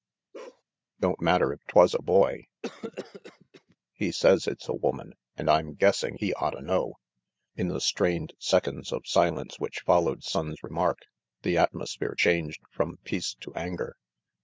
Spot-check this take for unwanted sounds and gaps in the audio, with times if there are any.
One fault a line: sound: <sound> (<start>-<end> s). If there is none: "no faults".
sound: bark (0.3-0.6 s)
sound: cough (2.6-3.8 s)